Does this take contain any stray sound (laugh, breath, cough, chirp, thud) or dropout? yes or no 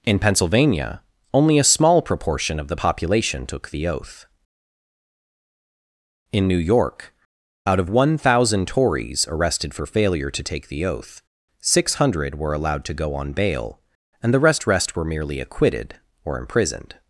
no